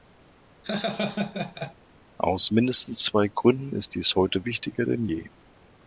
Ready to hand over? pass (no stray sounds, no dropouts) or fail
fail